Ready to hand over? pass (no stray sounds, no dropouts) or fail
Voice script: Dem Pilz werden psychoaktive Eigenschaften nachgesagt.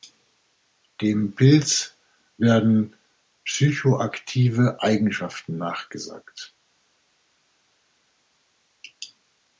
pass